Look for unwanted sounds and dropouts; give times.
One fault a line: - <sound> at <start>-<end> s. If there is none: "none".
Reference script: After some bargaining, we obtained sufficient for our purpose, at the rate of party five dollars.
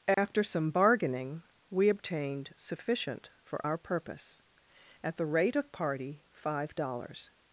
- dropout at 0.1-0.2 s